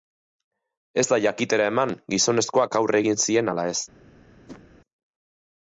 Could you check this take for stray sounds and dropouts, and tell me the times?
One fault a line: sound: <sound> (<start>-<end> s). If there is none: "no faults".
sound: whoosh (4.5-4.6 s)